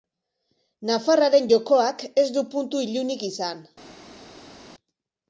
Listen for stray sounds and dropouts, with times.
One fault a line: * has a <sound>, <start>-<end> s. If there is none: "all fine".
all fine